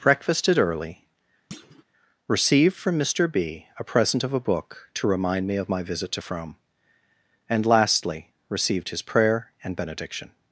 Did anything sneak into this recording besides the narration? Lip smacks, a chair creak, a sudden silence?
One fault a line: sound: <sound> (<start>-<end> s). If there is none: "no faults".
sound: thud (1.5-1.8 s)